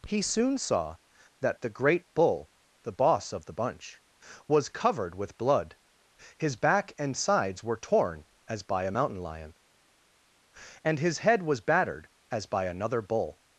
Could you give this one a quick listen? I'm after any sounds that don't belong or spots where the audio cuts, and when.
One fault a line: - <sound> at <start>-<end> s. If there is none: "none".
none